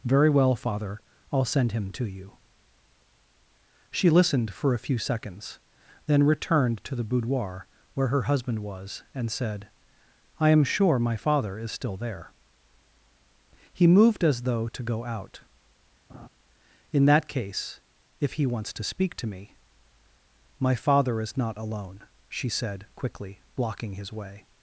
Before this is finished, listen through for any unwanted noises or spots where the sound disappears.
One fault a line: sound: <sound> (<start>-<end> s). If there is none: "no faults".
sound: laugh (16.1-16.3 s)